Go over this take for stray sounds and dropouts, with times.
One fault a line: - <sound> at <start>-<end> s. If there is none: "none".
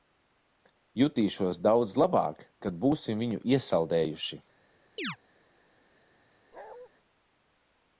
- chirp at 5.0-5.2 s
- bark at 6.5-6.9 s